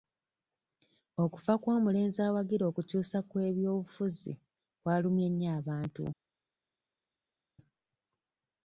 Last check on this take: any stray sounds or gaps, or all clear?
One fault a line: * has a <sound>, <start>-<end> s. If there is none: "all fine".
all fine